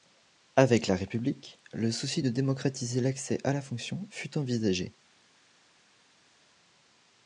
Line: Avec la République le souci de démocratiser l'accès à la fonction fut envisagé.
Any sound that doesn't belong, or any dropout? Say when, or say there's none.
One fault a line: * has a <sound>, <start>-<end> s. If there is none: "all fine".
all fine